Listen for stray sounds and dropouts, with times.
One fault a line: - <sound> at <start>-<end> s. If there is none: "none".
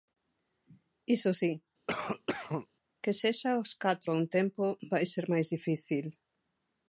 - cough at 1.9-2.7 s